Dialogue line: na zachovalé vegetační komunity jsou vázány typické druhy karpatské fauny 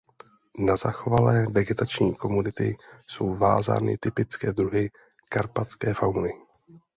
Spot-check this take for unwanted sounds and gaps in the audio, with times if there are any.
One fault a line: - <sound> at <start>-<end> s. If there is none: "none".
none